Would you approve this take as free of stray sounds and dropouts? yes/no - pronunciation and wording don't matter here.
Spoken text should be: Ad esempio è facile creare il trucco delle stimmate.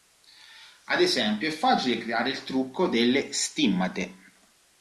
yes